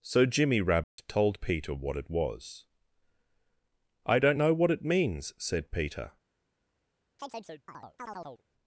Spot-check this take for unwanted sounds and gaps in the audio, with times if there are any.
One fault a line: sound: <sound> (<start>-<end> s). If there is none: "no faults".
sound: dropout (0.8-1.0 s)
sound: chirp (7.2-8.4 s)